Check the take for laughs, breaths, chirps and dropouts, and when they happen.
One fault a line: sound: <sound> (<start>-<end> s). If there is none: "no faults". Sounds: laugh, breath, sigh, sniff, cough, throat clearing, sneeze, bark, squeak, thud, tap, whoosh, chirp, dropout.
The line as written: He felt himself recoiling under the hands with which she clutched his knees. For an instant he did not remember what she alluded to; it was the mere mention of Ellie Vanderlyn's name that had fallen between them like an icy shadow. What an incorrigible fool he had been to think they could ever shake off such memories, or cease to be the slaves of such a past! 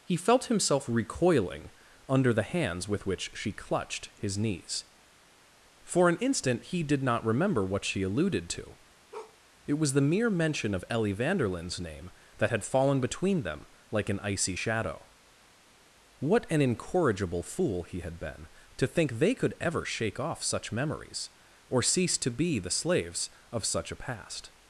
sound: bark (9.1-9.4 s)